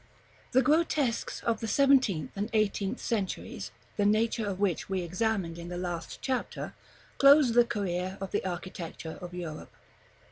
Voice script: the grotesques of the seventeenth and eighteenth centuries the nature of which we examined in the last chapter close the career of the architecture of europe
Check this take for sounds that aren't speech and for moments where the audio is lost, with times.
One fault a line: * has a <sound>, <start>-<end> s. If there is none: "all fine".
all fine